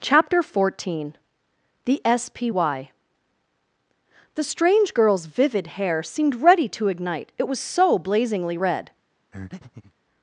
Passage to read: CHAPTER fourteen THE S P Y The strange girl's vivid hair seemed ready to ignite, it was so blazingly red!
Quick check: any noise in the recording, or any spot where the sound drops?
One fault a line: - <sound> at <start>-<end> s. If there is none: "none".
- breath at 9.3-9.9 s